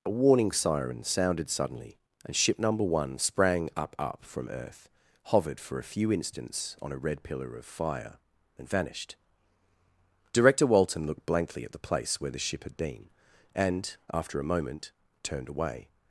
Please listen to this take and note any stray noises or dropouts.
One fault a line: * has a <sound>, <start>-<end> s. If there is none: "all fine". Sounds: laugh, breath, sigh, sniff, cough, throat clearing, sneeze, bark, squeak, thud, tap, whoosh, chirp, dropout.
all fine